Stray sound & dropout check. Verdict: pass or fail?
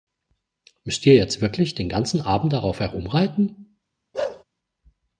fail